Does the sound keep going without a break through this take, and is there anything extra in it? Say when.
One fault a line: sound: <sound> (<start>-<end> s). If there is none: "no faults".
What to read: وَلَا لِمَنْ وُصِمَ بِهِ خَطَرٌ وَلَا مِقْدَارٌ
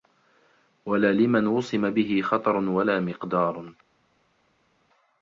no faults